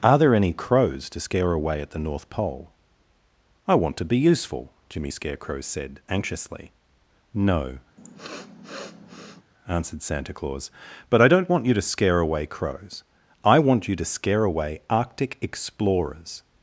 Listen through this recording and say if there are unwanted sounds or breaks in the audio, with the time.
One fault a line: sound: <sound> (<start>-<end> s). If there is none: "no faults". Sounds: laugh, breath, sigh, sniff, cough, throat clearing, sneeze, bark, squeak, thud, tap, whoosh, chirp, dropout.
sound: sniff (8.0-9.4 s)